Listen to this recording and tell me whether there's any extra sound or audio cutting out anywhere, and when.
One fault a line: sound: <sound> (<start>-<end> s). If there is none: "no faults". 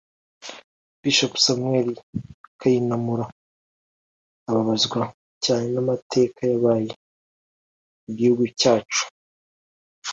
no faults